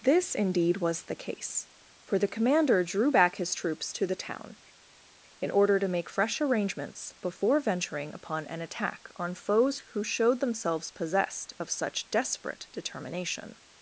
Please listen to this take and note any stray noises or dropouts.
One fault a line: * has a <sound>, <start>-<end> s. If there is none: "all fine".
all fine